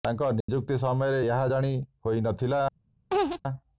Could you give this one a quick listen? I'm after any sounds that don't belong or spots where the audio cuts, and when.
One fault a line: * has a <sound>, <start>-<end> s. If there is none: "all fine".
* has a dropout, 0.4-0.5 s
* has a laugh, 3.1-3.4 s